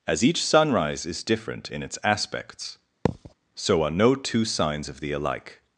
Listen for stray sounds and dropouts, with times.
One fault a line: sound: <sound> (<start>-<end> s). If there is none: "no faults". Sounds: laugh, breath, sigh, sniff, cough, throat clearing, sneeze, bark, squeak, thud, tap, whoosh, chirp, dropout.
sound: thud (3.1-3.3 s)